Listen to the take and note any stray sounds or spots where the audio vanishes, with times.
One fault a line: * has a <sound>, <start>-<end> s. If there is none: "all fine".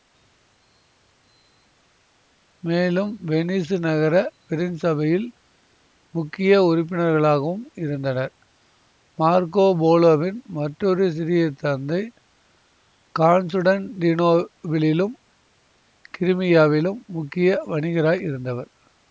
all fine